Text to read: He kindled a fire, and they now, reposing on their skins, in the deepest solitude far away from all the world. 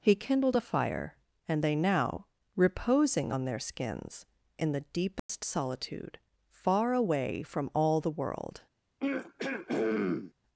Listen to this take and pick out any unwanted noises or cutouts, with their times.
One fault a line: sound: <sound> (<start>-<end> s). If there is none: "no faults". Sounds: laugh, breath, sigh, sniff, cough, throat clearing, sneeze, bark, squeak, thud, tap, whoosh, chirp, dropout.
sound: dropout (5.2-5.3 s)
sound: throat clearing (9.0-10.3 s)